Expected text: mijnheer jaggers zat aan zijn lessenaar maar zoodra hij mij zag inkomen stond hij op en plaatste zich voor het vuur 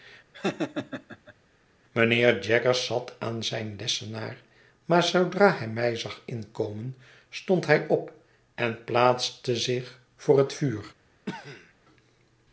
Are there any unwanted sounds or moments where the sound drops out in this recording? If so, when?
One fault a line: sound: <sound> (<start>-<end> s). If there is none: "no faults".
sound: laugh (0.3-1.3 s)
sound: cough (11.3-11.7 s)